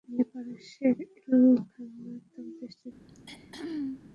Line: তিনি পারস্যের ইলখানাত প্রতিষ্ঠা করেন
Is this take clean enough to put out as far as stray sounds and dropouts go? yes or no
no